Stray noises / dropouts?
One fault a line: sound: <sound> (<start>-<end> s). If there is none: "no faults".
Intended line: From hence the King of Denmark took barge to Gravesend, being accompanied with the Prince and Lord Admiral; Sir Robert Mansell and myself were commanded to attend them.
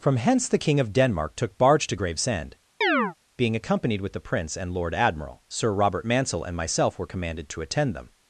sound: chirp (2.8-3.1 s)